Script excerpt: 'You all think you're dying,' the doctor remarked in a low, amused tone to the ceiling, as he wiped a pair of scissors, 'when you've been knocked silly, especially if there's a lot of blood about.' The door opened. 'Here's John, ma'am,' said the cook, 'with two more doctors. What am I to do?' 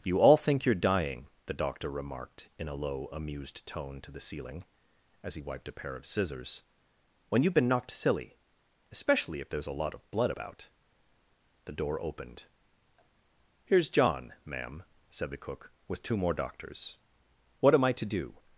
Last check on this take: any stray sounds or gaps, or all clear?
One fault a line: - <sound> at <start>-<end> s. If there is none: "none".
none